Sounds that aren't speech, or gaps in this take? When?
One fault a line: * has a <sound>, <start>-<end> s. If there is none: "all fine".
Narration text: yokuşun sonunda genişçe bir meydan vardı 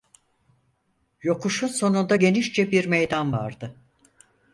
all fine